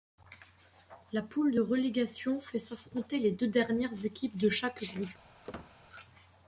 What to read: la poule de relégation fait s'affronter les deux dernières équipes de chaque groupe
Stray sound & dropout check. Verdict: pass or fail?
fail